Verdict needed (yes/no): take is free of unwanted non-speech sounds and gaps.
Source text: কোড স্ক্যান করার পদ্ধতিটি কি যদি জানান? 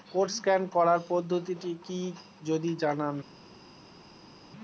yes